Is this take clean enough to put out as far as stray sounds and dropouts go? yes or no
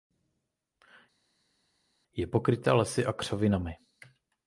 yes